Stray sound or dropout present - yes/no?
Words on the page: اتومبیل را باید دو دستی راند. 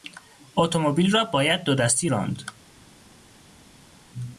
no